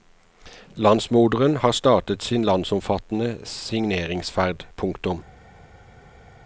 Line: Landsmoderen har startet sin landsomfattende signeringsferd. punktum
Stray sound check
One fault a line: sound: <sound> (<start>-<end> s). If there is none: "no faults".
no faults